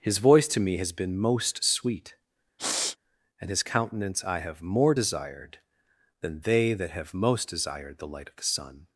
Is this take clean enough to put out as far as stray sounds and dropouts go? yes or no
no